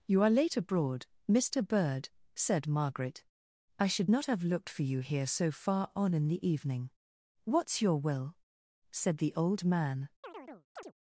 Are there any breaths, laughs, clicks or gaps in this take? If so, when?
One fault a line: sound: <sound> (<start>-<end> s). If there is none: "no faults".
sound: chirp (10.2-10.9 s)